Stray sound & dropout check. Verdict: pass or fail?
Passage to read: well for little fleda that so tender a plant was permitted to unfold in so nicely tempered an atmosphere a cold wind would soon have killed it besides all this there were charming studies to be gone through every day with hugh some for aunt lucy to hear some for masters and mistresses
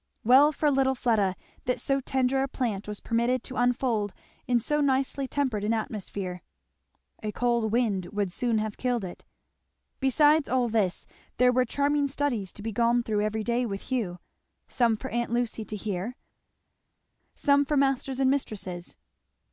pass